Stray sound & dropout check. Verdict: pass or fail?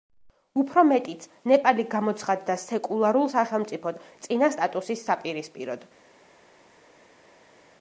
pass